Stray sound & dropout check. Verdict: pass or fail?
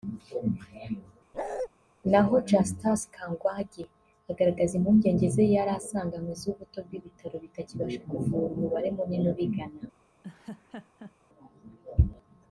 fail